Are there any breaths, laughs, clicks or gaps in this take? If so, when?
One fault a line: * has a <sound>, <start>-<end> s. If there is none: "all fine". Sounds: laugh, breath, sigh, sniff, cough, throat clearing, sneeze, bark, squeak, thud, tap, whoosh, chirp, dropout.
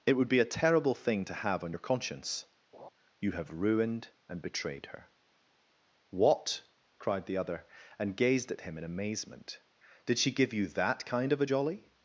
* has a laugh, 2.7-2.9 s